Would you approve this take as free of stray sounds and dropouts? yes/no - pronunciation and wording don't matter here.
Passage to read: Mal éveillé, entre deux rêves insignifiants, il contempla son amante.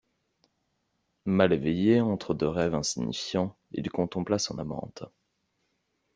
yes